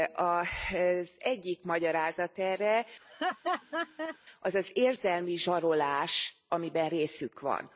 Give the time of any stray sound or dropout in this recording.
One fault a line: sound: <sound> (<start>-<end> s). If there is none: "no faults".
sound: laugh (3.0-4.2 s)